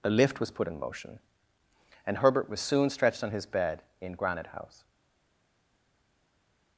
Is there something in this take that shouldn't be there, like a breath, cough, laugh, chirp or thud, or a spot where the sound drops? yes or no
no